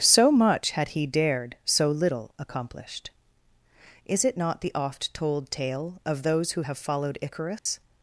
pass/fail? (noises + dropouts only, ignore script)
fail